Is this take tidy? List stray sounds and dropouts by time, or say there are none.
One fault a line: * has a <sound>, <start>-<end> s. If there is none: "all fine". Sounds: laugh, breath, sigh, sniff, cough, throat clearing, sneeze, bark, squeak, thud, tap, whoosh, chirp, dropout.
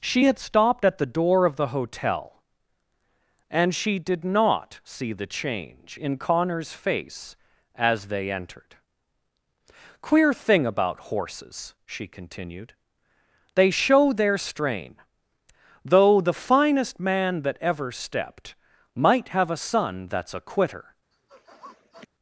* has a sniff, 21.1-22.1 s